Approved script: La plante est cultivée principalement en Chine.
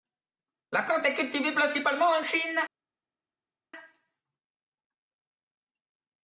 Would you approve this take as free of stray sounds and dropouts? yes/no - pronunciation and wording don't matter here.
yes